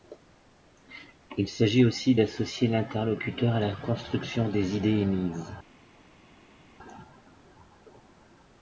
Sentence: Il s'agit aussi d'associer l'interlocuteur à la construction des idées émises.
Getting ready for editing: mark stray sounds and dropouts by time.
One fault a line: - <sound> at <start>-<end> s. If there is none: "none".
none